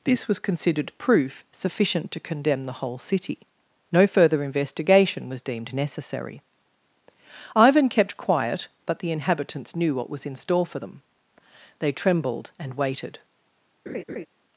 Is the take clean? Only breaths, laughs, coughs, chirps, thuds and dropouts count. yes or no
no